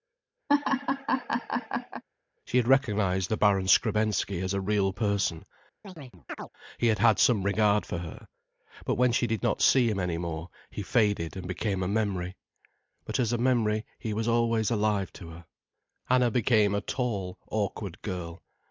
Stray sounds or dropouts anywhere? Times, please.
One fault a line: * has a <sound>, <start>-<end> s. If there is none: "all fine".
* has a laugh, 0.5-2.0 s
* has a chirp, 5.8-6.5 s